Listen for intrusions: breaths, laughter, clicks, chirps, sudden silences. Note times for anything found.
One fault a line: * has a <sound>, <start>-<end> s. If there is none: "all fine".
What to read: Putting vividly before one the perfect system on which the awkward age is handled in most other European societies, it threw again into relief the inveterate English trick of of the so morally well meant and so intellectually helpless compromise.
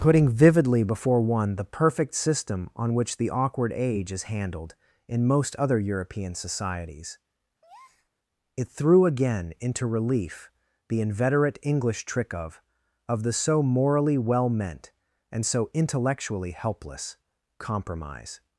* has a breath, 7.6-8.1 s